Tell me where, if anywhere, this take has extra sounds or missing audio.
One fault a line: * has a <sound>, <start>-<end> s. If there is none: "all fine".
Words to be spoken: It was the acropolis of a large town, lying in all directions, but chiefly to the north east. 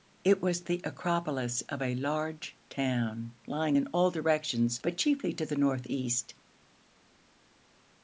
all fine